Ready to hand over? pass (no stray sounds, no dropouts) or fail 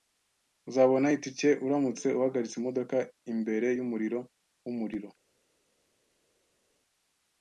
pass